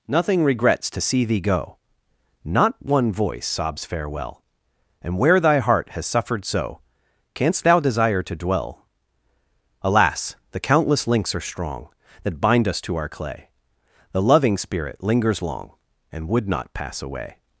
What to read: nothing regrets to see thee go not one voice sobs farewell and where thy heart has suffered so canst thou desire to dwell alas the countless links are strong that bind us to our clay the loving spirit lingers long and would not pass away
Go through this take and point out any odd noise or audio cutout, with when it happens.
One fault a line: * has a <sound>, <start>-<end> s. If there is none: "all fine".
all fine